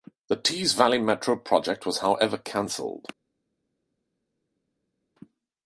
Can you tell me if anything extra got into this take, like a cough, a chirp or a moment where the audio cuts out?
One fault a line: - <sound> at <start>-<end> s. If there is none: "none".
none